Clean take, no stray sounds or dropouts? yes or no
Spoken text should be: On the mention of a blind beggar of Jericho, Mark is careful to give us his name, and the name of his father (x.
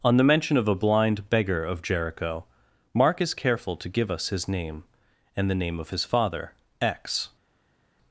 yes